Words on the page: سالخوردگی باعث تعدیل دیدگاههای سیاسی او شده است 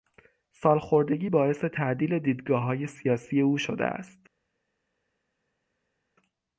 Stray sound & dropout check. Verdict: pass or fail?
pass